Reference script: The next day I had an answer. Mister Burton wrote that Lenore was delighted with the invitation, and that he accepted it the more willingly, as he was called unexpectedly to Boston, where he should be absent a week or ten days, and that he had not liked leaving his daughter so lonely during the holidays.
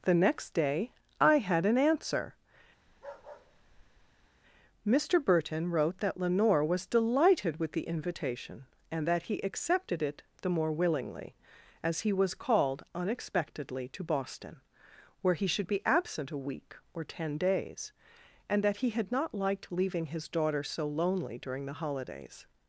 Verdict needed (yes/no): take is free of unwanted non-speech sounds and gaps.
no